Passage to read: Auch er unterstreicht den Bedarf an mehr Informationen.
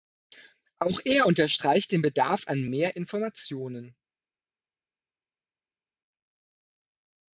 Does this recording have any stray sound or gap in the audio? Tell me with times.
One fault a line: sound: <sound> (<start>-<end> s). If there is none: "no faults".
no faults